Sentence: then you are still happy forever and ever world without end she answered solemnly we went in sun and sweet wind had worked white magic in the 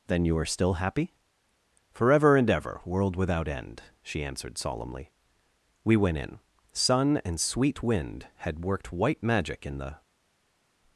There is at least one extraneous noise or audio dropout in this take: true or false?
false